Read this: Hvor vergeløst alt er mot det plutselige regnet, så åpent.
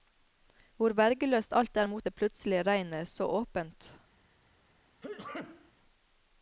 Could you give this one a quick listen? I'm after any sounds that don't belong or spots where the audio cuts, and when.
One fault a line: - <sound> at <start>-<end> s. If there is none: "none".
- sneeze at 5.0-5.7 s